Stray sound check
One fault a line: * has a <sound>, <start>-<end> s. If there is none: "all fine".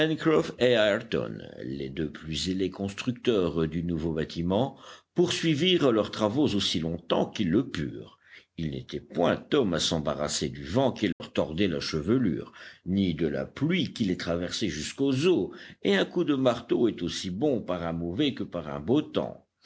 * has a dropout, 11.1-11.2 s